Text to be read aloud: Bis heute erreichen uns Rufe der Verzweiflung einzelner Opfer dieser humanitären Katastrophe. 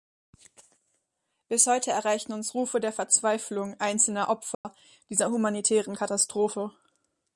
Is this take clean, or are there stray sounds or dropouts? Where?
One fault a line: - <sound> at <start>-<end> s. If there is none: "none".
- dropout at 4.5-4.7 s